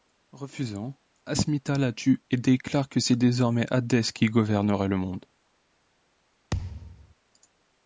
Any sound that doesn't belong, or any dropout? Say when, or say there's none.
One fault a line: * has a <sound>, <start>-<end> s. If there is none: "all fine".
* has a thud, 6.5-7.1 s